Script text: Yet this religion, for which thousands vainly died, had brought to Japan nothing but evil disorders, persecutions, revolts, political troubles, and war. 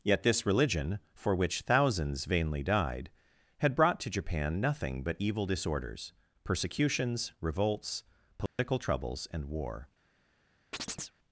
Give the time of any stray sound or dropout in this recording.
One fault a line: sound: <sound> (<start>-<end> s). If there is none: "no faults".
sound: dropout (8.5-8.6 s)
sound: chirp (10.7-11.2 s)